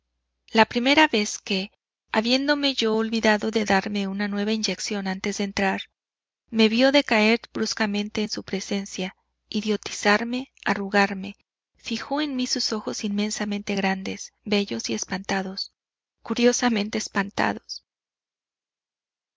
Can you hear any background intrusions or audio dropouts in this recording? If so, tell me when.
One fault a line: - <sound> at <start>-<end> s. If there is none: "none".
none